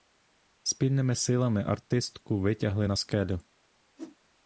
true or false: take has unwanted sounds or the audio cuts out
true